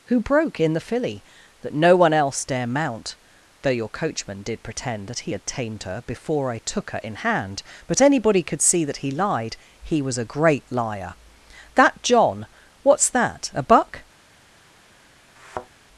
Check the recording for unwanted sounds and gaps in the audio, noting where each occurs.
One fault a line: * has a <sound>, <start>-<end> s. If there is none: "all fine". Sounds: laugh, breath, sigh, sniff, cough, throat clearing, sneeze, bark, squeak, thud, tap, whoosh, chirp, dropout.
* has a thud, 15.4-15.7 s